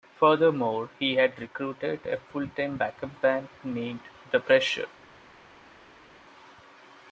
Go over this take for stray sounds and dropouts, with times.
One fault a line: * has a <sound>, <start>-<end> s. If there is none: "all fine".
all fine